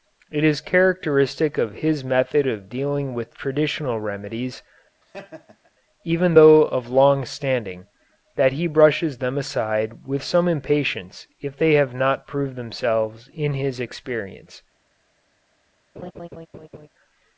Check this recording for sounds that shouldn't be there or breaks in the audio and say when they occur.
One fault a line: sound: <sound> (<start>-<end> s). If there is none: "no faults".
sound: laugh (5.0-5.7 s)
sound: laugh (16.0-16.9 s)